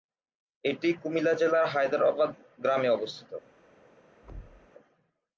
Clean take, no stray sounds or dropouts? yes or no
no